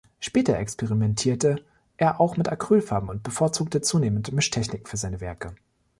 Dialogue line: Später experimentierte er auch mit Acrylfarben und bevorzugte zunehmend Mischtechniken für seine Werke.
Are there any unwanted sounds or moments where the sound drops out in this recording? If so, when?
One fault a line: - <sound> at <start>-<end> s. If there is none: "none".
none